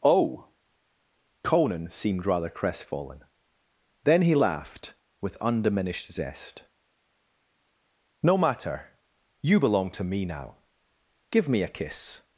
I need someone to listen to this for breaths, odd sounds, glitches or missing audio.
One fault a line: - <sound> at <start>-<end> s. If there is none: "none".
none